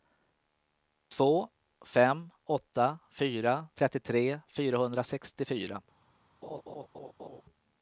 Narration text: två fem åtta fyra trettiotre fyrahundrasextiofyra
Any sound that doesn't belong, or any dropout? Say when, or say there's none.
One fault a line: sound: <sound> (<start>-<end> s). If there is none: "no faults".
sound: laugh (6.4-7.4 s)